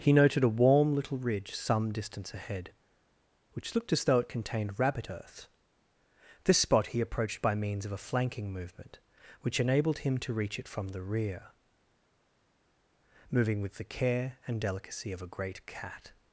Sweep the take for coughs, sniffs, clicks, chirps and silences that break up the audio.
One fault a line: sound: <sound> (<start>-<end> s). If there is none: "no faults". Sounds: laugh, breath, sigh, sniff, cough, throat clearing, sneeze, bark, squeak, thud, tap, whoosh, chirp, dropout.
no faults